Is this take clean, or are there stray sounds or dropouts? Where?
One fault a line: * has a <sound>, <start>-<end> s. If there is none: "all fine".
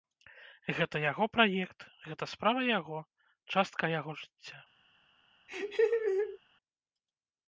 * has a laugh, 5.5-6.4 s